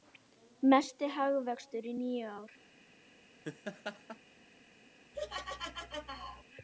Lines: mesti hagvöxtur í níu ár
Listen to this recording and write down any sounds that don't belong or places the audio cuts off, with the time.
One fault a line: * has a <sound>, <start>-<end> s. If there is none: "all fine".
* has a laugh, 3.4-4.2 s
* has a laugh, 5.1-6.4 s